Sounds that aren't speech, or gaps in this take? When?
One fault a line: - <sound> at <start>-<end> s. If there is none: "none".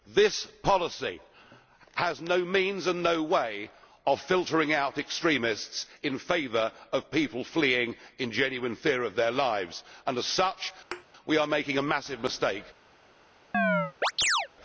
- thud at 10.9-11.1 s
- chirp at 13.5-14.5 s